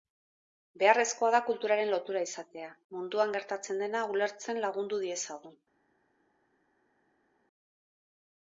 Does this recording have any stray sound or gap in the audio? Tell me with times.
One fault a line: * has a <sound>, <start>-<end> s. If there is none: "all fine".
all fine